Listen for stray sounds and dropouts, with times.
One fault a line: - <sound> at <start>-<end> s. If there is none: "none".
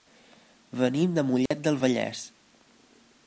- dropout at 1.5-1.5 s